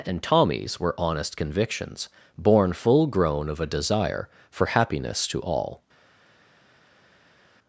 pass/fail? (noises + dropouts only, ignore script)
pass